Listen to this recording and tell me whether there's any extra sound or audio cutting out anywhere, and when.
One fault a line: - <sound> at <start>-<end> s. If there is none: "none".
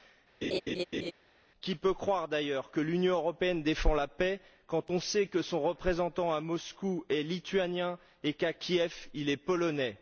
- laugh at 0.4-1.1 s